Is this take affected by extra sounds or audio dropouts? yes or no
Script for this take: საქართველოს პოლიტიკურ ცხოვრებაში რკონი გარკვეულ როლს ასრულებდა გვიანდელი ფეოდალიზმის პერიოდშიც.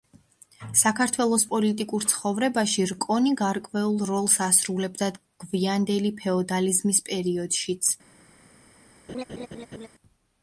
yes